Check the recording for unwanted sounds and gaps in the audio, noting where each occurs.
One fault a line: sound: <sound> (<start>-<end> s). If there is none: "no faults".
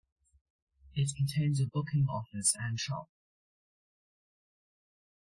no faults